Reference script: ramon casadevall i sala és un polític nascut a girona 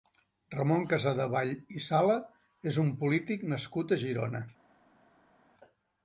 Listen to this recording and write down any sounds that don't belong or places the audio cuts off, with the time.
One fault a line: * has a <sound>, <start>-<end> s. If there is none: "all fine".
all fine